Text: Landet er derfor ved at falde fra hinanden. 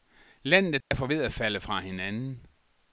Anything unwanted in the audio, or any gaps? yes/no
yes